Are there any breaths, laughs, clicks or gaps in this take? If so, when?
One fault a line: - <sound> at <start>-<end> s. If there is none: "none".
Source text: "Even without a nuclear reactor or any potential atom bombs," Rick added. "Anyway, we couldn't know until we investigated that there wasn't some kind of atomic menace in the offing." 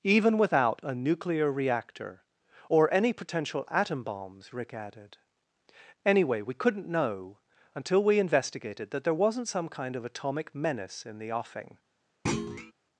- thud at 12.3-12.7 s